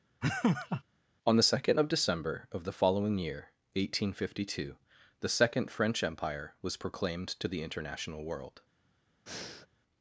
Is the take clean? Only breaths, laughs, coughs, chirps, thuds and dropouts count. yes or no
no